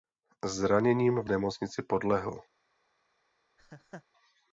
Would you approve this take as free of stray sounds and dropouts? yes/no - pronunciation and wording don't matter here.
no